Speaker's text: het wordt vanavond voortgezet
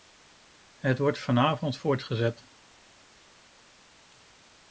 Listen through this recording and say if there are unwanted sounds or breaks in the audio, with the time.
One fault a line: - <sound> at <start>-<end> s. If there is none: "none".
none